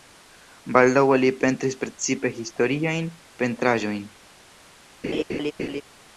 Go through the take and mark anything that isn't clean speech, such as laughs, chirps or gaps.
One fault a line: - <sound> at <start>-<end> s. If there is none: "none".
- laugh at 5.0-5.8 s